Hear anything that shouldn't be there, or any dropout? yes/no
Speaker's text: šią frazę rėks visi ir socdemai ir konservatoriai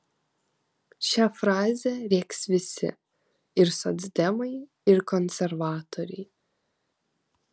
no